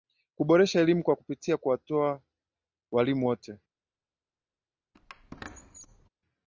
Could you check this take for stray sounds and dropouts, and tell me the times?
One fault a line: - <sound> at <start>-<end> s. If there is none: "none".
- squeak at 4.9-6.1 s